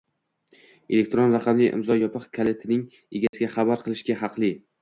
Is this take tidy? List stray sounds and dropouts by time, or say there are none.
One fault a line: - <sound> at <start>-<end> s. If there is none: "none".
- dropout at 3.3-3.3 s